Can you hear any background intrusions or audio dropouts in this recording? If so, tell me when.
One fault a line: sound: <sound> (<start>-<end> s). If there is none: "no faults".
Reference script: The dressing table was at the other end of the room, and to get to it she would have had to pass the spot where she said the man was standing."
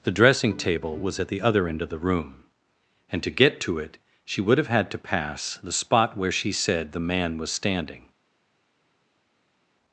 no faults